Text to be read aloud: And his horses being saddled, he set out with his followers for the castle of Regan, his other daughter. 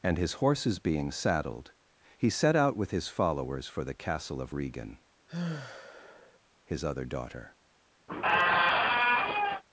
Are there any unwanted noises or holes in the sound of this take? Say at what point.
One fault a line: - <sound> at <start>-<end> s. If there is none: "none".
- sigh at 5.3-6.4 s
- squeak at 8.1-9.6 s